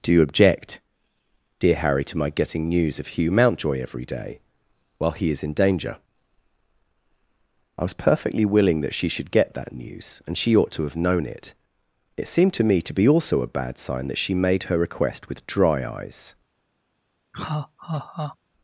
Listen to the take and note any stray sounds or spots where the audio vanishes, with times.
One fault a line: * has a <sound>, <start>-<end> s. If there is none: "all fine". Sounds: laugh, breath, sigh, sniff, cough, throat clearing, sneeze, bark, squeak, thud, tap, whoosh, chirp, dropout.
* has a laugh, 17.3-18.4 s